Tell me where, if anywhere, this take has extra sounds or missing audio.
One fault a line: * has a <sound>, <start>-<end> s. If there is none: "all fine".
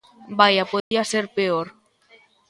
* has a dropout, 0.8-0.9 s